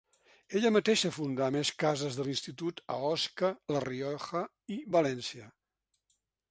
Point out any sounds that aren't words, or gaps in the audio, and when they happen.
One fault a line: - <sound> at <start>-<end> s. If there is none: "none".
none